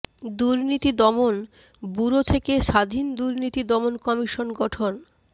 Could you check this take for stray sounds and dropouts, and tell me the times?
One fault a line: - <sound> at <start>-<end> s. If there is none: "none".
none